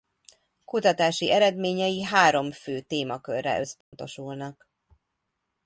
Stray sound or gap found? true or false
true